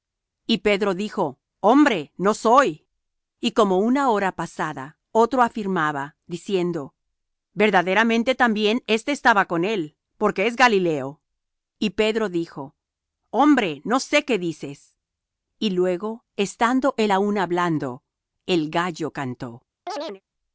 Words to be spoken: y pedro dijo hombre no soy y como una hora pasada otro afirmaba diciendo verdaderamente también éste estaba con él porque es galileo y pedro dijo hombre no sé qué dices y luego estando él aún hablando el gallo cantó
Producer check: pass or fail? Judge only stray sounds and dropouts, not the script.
fail